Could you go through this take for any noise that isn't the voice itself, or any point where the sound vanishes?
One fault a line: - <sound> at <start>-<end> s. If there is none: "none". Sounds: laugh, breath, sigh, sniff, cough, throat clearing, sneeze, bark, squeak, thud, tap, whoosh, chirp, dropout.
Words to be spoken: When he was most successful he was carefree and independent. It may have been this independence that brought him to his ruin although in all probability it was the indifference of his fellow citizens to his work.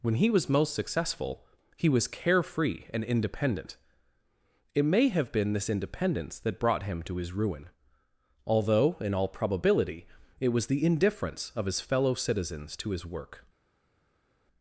none